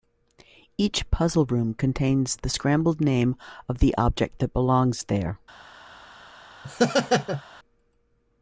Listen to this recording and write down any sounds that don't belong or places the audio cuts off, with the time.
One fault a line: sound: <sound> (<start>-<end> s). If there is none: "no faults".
sound: laugh (6.6-7.4 s)